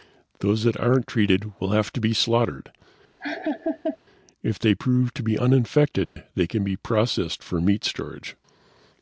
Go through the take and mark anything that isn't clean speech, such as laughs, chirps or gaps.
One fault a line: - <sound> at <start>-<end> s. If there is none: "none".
- laugh at 3.2-4.0 s
- dropout at 6.1-6.2 s